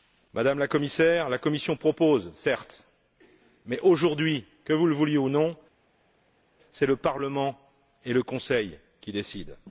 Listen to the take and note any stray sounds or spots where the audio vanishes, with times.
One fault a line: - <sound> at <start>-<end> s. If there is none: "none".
none